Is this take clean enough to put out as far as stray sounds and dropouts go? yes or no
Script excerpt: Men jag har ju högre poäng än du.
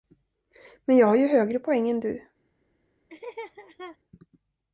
no